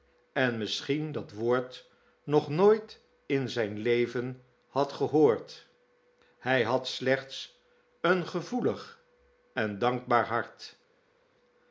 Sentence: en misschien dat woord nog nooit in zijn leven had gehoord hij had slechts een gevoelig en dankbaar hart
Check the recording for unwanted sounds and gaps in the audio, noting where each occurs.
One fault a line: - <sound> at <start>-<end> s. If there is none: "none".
none